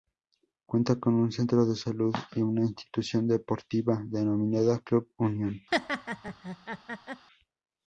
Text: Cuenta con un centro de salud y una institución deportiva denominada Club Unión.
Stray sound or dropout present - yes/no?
yes